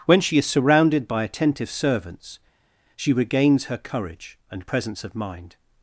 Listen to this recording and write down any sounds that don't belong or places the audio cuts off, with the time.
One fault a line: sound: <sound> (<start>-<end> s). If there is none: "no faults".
no faults